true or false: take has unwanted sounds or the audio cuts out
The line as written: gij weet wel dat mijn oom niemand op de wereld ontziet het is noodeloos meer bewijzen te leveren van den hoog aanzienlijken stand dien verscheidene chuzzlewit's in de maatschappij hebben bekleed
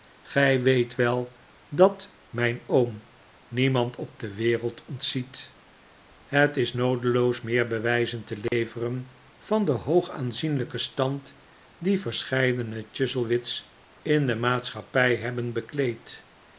true